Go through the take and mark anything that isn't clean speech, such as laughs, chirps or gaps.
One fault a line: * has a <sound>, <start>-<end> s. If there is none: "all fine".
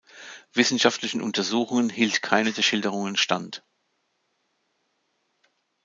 all fine